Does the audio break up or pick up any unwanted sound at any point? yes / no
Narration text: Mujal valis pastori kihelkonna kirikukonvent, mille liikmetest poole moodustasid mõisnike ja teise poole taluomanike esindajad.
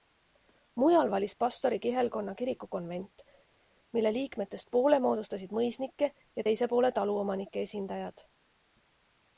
no